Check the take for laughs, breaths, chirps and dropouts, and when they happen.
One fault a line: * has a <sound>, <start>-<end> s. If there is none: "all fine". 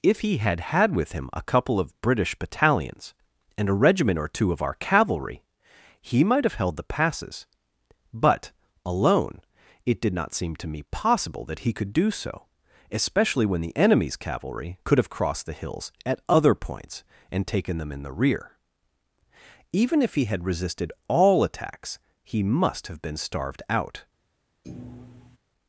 * has a thud, 24.6-25.4 s